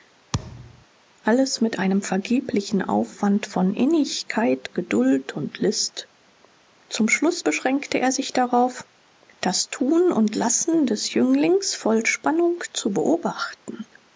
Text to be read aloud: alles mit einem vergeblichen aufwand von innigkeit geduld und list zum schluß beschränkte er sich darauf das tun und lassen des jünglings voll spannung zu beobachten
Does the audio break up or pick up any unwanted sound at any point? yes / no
yes